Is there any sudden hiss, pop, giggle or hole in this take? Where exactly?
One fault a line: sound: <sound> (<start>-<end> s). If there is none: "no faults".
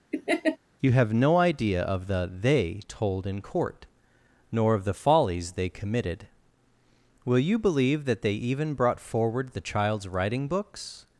sound: laugh (0.1-0.6 s)